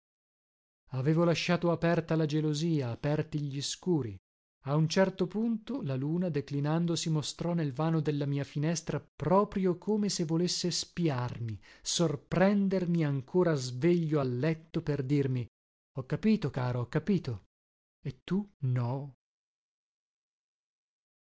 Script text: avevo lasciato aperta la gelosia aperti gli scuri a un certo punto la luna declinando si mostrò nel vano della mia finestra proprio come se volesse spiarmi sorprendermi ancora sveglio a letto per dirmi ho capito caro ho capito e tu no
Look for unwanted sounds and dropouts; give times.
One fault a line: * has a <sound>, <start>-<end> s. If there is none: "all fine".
all fine